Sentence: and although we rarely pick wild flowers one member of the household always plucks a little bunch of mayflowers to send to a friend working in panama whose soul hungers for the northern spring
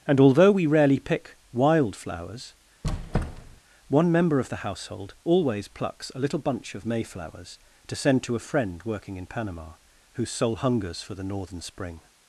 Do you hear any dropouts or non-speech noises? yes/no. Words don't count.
yes